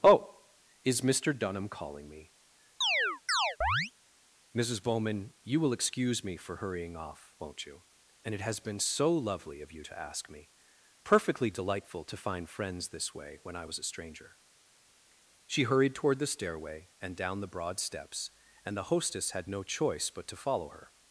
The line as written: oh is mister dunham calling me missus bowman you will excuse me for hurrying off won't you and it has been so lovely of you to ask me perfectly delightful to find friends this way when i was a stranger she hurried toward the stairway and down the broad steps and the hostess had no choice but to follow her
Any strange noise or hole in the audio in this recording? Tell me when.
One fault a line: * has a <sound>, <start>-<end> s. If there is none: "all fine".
* has a chirp, 2.8-3.9 s